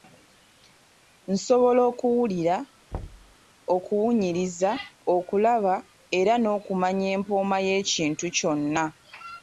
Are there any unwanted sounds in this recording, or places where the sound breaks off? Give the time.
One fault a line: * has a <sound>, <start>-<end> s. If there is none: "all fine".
* has a thud, 2.9-3.4 s